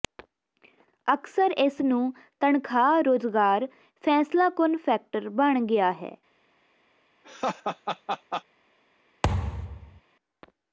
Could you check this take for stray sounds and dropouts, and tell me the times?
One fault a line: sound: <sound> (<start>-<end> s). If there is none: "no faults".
sound: laugh (7.2-8.4 s)
sound: thud (9.2-10.0 s)